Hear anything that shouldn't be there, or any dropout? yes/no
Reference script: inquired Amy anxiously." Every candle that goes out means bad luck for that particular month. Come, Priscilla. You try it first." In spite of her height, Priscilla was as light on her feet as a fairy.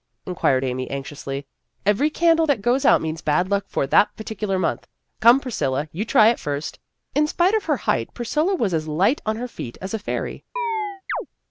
yes